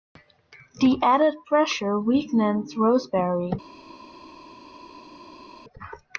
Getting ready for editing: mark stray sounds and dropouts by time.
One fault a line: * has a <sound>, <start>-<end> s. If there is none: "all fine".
all fine